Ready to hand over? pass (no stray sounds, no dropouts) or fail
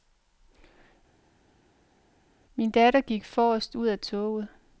pass